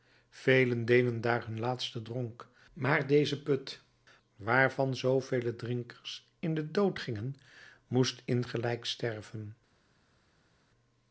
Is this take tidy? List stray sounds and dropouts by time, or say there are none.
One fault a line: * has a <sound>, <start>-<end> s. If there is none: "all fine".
all fine